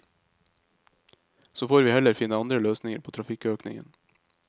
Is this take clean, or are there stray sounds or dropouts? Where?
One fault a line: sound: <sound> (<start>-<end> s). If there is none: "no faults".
no faults